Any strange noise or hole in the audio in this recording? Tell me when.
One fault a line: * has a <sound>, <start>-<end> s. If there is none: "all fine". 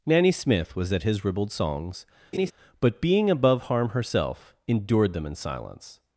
* has a laugh, 2.3-2.5 s